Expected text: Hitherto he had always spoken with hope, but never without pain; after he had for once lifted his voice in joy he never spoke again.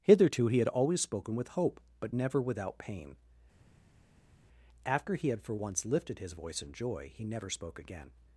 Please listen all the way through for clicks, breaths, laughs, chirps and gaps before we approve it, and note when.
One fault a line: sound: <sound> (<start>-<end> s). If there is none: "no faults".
no faults